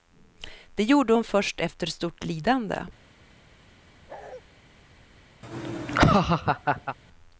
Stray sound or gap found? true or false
true